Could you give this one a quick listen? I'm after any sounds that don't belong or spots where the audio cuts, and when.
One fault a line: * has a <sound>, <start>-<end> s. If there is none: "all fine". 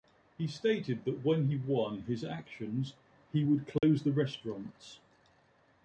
* has a dropout, 3.8-3.8 s